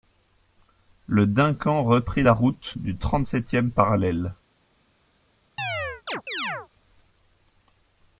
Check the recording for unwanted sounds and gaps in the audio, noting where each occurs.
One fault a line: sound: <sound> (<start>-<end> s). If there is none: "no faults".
sound: chirp (5.6-6.7 s)